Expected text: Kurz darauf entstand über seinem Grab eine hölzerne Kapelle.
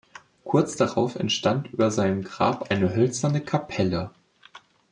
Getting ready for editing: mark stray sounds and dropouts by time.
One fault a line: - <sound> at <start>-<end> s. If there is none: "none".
none